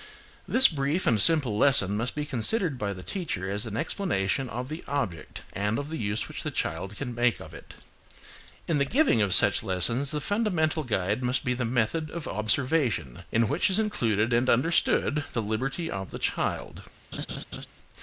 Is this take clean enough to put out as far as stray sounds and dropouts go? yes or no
no